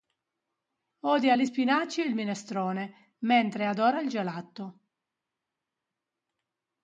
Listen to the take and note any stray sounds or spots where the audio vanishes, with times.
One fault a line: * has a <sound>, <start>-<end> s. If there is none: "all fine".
all fine